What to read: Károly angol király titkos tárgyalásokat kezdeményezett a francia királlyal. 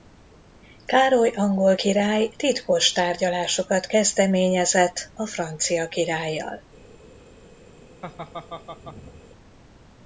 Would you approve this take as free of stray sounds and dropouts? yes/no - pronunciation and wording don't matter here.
no